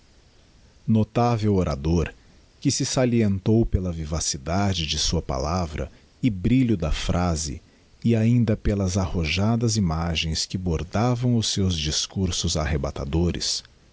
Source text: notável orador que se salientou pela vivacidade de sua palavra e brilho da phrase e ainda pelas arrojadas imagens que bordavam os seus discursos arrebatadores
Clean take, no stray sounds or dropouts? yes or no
yes